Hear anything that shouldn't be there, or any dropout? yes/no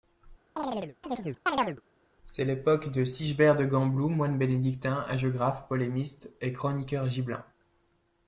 yes